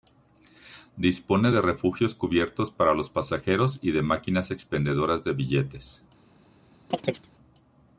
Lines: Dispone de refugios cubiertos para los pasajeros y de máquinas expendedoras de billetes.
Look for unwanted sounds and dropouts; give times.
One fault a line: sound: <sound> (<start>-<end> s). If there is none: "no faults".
sound: chirp (6.9-7.3 s)